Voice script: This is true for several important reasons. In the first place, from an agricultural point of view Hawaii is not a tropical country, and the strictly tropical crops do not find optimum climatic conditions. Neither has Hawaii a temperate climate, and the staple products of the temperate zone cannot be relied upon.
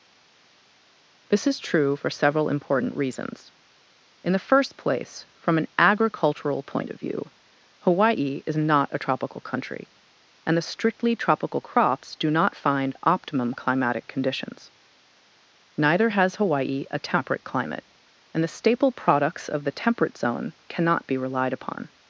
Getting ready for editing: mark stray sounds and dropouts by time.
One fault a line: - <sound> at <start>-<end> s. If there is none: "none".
none